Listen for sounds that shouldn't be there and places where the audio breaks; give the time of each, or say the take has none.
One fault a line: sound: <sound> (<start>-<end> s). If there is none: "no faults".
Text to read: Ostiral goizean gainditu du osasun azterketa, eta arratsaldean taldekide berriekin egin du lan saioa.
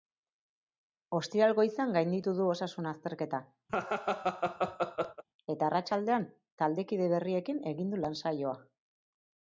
sound: laugh (3.7-5.2 s)